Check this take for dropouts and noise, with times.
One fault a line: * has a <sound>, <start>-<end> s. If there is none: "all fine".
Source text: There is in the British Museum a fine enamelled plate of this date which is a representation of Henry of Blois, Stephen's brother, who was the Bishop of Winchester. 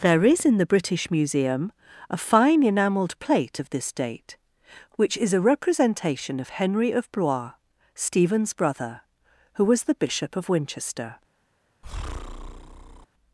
* has a breath, 11.8-13.1 s